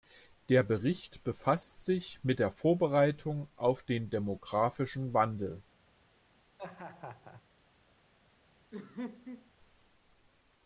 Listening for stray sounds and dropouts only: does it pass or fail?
fail